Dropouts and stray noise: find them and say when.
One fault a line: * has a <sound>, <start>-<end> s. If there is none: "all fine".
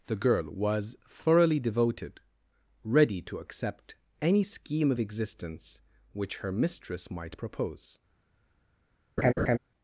* has a laugh, 9.2-9.6 s